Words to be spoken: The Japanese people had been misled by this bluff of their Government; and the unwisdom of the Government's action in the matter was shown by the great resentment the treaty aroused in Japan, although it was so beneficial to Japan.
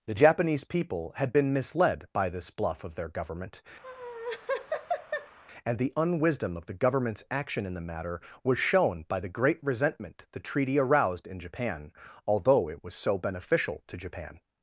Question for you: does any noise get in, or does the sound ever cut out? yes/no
yes